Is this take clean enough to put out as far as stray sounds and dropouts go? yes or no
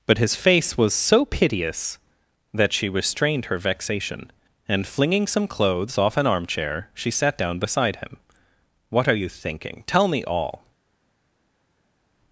yes